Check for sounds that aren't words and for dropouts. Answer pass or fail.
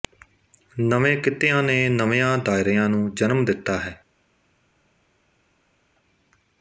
pass